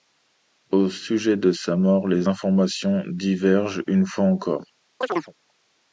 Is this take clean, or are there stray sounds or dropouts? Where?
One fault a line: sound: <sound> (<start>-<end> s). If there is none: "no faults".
sound: chirp (5.0-5.3 s)